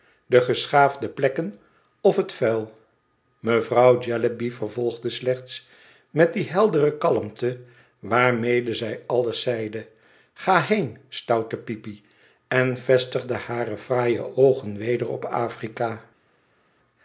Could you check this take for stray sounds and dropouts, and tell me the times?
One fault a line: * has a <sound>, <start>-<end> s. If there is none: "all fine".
all fine